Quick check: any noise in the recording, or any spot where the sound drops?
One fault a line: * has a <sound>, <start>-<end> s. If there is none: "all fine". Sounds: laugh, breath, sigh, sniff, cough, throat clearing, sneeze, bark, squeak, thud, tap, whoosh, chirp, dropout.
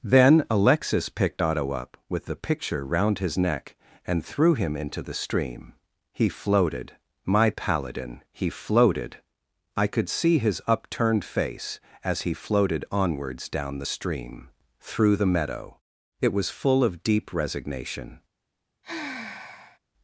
* has a sigh, 18.8-19.8 s